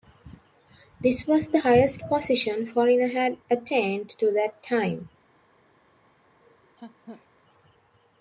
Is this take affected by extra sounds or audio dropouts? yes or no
yes